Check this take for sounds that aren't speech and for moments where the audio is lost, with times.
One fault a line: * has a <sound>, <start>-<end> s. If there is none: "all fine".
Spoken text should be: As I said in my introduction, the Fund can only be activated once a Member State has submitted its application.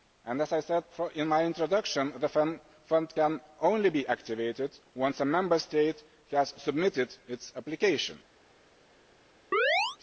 * has a chirp, 9.5-10.0 s